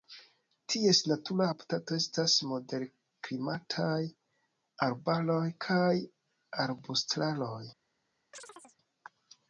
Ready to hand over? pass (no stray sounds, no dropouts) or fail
fail